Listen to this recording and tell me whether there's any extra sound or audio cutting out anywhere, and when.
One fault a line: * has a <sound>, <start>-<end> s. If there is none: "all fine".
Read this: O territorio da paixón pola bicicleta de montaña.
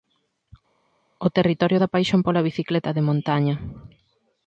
all fine